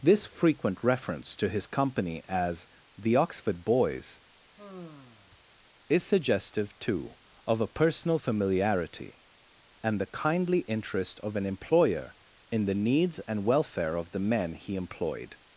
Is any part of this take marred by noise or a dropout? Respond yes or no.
yes